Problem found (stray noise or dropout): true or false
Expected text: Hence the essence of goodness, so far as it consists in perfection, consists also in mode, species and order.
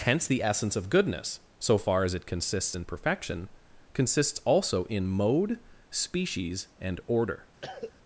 true